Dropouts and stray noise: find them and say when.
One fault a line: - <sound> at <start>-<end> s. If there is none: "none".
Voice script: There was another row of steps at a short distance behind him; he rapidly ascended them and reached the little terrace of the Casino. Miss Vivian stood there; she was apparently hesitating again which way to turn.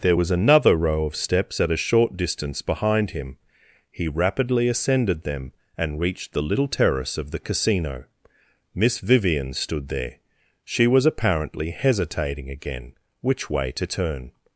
none